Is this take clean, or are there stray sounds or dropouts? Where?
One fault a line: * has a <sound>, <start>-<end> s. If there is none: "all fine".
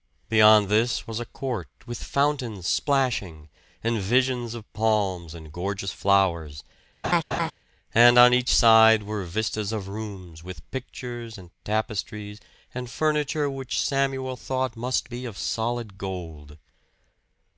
* has a laugh, 7.0-7.5 s